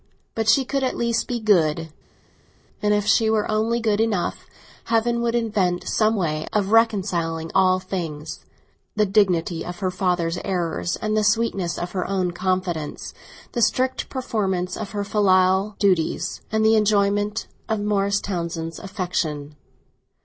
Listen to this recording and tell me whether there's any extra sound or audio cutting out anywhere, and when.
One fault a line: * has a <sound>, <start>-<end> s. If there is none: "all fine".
all fine